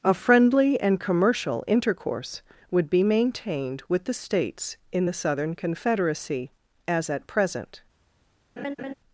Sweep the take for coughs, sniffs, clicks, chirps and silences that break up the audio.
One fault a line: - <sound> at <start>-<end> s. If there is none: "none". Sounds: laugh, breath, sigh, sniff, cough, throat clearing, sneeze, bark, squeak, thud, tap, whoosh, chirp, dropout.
- laugh at 8.6-8.9 s